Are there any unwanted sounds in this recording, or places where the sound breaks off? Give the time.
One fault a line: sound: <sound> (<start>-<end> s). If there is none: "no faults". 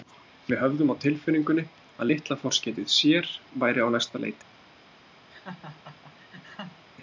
sound: laugh (5.3-6.8 s)